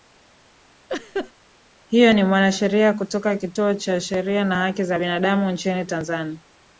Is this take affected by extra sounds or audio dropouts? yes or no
yes